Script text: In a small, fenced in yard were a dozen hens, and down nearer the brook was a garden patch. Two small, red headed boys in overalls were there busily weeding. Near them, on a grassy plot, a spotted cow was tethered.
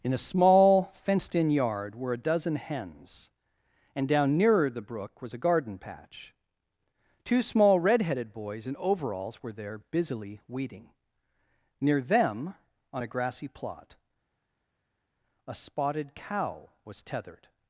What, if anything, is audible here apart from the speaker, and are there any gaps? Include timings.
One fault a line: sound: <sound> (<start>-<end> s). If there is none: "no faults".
no faults